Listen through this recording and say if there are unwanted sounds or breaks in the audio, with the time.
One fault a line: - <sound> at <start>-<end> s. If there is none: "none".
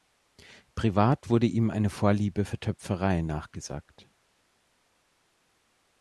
none